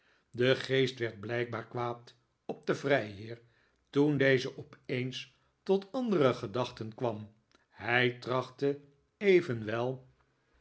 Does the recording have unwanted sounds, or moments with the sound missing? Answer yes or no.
no